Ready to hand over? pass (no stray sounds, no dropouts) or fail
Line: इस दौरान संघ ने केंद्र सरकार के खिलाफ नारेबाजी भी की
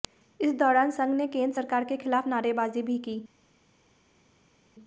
pass